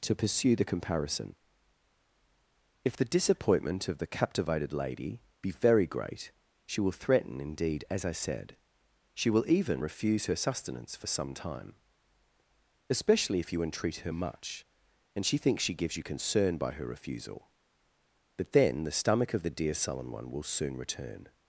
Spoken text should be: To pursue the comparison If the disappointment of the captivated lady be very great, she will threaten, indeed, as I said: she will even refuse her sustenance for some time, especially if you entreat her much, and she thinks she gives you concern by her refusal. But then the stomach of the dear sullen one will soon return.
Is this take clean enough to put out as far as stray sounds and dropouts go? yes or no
yes